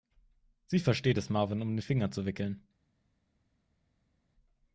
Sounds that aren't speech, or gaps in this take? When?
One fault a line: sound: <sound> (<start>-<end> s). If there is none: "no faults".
no faults